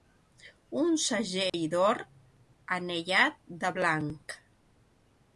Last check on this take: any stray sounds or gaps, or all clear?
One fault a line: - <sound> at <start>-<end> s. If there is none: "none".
- dropout at 1.5-1.5 s